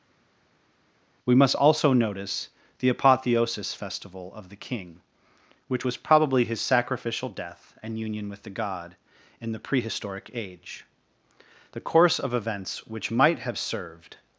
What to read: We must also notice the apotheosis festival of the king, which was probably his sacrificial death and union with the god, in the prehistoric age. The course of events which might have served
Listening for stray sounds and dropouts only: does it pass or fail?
pass